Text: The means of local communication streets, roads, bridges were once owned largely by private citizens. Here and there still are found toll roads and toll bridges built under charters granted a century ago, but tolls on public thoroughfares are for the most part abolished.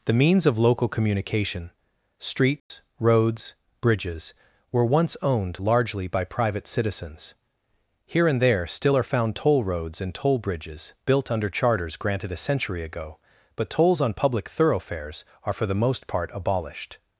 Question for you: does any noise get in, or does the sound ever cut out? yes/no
yes